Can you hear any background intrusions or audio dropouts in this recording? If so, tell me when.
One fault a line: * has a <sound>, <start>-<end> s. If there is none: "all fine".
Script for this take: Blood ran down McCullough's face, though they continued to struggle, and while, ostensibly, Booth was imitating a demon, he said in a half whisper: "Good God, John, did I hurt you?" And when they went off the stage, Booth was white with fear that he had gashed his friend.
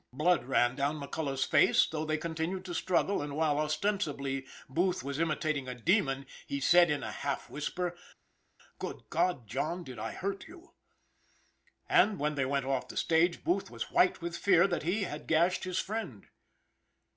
all fine